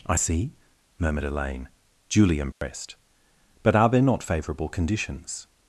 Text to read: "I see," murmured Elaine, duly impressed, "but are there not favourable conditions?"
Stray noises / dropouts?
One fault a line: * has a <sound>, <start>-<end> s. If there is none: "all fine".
* has a dropout, 2.5-2.6 s